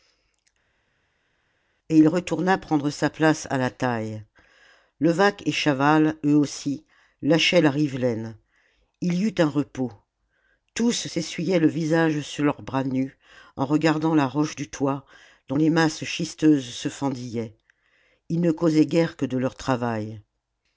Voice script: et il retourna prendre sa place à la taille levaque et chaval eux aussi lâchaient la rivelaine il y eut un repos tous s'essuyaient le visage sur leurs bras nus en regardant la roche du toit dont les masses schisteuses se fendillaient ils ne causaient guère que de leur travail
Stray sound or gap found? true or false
false